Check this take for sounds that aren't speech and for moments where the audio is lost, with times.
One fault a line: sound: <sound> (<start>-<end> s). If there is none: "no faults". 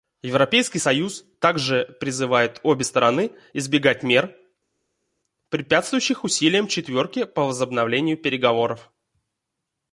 no faults